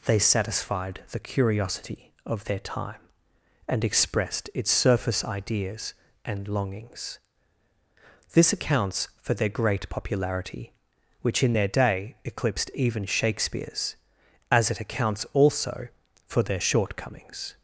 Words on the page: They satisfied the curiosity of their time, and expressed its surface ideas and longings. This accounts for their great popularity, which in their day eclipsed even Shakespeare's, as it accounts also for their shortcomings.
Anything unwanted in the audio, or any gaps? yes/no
no